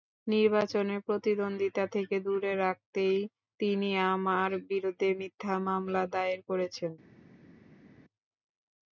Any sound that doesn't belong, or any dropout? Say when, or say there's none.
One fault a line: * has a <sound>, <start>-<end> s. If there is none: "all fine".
all fine